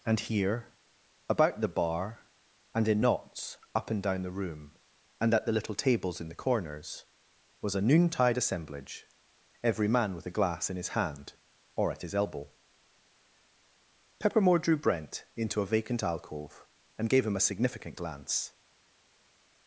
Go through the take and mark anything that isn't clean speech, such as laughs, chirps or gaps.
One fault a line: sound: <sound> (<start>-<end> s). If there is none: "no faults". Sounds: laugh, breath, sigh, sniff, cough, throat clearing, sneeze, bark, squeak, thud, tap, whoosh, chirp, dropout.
no faults